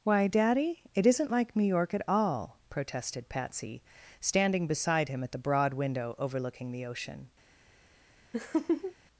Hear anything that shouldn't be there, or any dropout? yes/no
yes